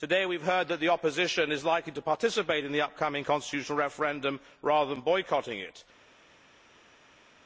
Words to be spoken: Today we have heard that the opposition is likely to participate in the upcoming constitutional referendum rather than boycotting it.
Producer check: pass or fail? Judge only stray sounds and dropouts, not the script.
pass